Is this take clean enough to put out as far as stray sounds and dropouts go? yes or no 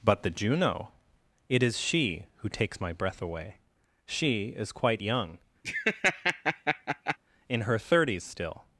no